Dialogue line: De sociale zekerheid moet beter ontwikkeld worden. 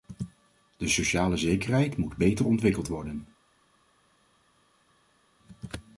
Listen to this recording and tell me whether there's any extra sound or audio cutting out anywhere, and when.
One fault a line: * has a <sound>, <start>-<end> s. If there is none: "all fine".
all fine